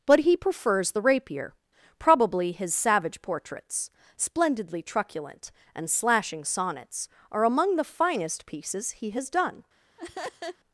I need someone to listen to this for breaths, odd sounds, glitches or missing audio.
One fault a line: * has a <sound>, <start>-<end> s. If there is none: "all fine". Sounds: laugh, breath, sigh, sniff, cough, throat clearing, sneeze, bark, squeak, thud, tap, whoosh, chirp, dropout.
* has a laugh, 10.0-10.6 s